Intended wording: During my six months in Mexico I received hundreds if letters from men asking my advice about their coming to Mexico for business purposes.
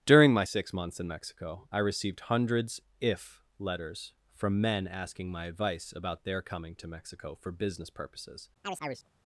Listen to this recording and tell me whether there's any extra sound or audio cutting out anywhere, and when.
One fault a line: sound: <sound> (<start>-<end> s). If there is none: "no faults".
sound: chirp (8.6-9.1 s)